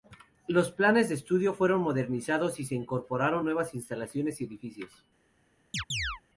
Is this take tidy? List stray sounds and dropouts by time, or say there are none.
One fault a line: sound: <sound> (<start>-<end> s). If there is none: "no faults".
sound: chirp (5.7-6.2 s)